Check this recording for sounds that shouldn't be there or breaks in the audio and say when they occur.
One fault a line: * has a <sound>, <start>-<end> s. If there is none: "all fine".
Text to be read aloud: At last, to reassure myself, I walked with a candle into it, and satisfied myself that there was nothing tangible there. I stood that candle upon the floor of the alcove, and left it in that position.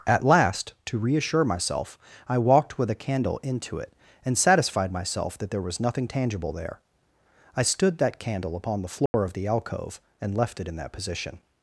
* has a dropout, 9.1-9.1 s